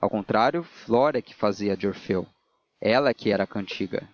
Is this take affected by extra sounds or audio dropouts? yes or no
no